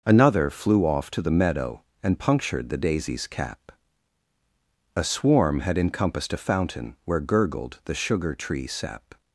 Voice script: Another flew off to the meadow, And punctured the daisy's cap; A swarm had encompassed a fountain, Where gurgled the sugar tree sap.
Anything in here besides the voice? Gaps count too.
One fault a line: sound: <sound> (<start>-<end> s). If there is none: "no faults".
no faults